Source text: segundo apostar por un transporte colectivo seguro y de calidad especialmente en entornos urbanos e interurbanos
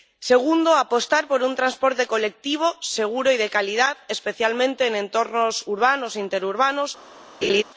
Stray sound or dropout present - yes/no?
yes